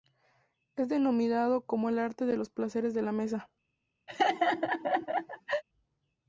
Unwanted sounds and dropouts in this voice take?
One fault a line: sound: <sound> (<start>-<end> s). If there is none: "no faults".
sound: laugh (4.1-5.6 s)